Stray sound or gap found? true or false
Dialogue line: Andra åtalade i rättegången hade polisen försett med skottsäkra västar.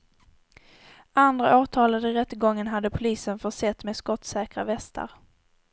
false